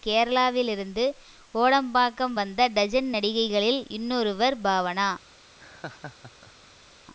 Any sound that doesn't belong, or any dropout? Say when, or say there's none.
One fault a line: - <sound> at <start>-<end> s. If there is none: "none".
- laugh at 5.6-6.9 s